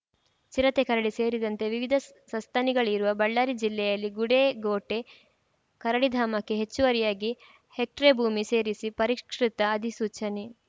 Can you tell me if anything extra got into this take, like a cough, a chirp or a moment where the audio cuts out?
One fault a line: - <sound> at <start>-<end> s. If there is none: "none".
none